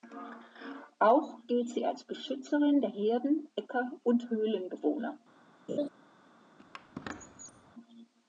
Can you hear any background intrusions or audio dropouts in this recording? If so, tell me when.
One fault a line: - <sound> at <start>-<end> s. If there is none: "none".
- laugh at 5.7-5.9 s
- squeak at 6.6-7.7 s